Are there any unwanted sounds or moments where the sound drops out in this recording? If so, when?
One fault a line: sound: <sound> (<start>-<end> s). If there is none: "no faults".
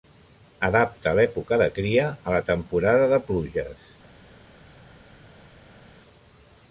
no faults